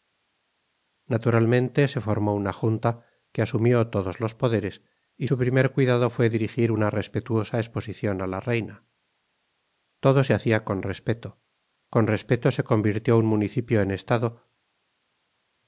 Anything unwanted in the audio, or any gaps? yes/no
no